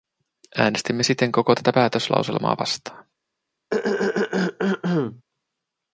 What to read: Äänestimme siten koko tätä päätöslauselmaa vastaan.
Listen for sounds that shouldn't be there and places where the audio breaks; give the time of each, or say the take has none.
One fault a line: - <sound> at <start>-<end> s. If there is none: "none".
- throat clearing at 3.7-5.2 s